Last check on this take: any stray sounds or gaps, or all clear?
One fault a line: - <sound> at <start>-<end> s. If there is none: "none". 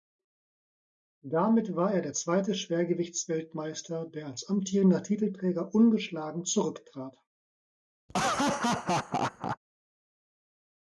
- laugh at 8.1-9.6 s